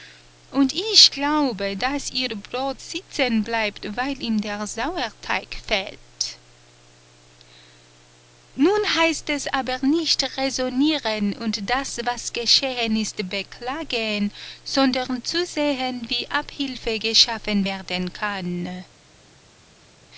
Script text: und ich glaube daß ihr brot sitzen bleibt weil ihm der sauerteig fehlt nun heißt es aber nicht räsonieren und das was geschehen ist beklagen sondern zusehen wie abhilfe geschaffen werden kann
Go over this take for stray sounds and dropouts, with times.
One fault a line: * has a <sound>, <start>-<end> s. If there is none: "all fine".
all fine